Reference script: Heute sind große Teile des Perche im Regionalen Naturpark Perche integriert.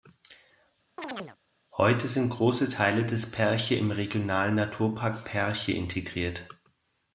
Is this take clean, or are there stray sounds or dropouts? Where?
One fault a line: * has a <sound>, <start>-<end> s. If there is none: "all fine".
* has a chirp, 1.0-1.4 s